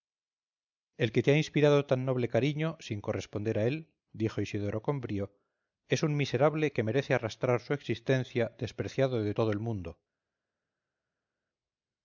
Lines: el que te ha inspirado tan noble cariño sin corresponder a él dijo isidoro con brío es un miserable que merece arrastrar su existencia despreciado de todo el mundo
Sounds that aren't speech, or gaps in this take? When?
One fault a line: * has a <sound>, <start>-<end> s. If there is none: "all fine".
all fine